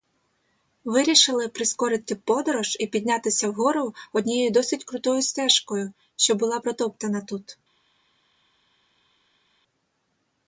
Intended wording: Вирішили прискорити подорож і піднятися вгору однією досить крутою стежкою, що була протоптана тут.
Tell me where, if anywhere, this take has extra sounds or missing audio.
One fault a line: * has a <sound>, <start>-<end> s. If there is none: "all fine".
all fine